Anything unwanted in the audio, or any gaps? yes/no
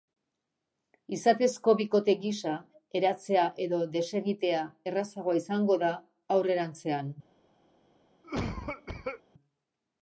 yes